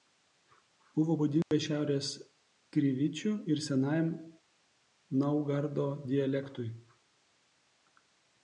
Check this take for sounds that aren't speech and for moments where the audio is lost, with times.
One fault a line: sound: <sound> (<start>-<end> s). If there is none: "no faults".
sound: dropout (1.4-1.5 s)